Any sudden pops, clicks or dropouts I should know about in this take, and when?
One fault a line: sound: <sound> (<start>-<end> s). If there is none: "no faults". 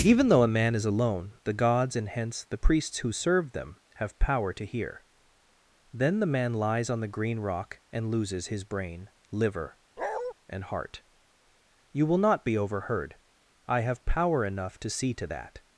sound: bark (10.0-10.3 s)